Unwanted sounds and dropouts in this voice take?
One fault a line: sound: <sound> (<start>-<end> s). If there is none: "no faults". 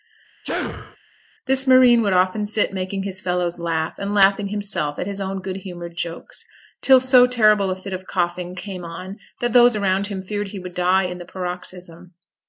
sound: sneeze (0.4-1.0 s)